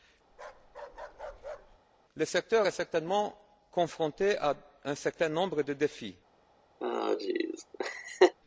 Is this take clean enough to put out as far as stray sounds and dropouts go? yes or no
no